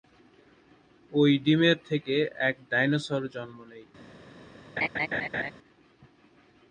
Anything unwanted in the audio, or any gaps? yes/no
yes